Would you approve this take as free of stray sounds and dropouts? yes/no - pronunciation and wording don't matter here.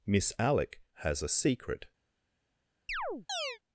no